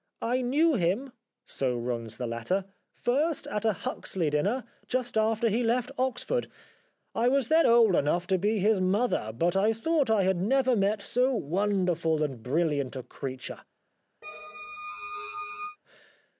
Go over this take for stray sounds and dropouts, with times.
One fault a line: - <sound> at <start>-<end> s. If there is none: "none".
- squeak at 14.2-15.8 s